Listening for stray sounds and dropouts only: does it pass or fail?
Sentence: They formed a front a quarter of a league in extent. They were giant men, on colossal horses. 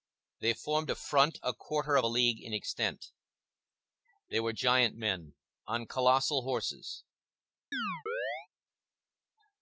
fail